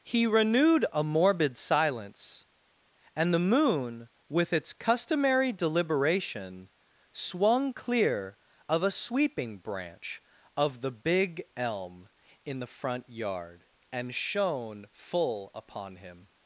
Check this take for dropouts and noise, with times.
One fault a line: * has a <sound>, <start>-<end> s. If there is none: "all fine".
all fine